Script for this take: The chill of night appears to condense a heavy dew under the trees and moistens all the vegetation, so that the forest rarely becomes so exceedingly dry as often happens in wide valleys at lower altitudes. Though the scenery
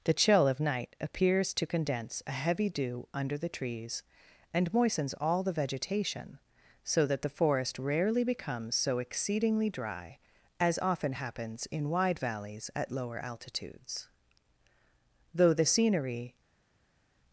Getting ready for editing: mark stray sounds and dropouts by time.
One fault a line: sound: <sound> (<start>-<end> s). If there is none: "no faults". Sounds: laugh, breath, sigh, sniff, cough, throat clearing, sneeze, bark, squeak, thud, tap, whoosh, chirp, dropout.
no faults